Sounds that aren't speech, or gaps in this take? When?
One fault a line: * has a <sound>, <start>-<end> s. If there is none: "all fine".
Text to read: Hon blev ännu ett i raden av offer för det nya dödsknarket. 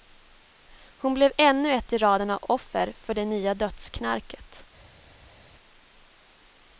all fine